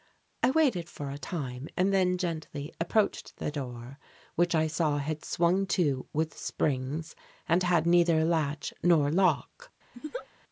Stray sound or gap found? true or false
true